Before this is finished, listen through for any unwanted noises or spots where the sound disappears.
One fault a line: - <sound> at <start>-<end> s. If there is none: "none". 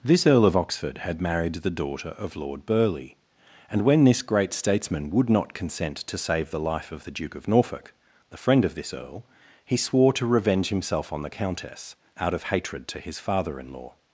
none